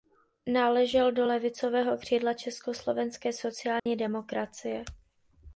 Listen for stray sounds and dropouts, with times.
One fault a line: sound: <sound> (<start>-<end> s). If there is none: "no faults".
sound: dropout (3.8-3.9 s)